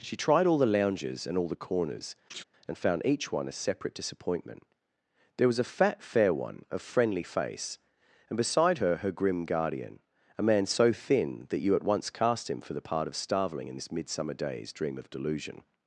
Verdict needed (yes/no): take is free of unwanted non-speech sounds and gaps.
no